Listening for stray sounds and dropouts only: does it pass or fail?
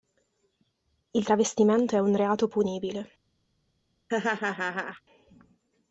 fail